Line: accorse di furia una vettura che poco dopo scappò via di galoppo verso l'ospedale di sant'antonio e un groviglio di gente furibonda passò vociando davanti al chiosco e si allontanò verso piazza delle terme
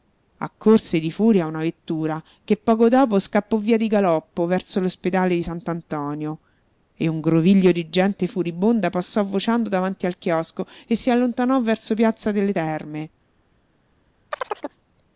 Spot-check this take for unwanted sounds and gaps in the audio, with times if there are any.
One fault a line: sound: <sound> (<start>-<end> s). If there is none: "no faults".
sound: chirp (14.3-14.8 s)